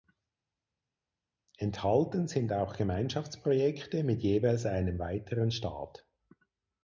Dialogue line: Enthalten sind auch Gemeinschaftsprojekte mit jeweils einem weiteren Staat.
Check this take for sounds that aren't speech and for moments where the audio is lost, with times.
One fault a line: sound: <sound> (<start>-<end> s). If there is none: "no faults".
no faults